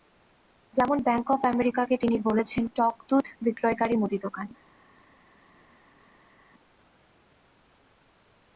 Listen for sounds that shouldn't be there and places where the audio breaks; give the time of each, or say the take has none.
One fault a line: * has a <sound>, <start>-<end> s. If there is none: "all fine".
all fine